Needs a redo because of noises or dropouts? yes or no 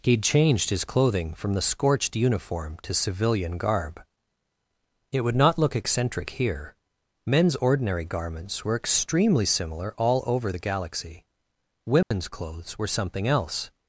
yes